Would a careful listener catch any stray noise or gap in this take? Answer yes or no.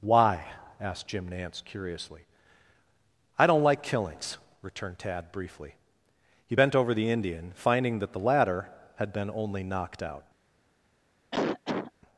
yes